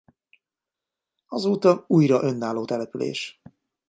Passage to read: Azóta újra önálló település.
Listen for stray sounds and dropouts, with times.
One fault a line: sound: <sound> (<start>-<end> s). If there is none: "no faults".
no faults